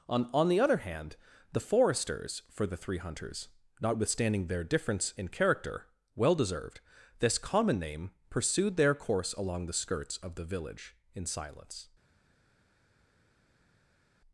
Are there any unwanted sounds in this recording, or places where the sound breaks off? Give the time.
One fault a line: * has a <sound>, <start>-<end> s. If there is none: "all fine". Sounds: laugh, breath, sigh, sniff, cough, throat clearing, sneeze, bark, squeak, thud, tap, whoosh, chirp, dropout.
all fine